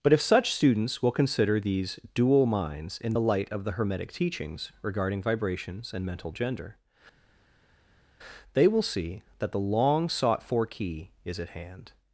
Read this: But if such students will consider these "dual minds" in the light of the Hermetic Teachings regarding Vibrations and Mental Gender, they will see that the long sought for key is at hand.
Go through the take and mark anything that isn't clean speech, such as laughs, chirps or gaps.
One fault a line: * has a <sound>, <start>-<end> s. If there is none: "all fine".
all fine